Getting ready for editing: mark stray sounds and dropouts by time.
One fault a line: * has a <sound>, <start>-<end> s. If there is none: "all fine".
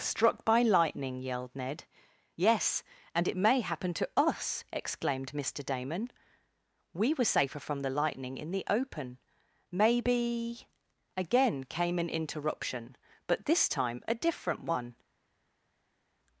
all fine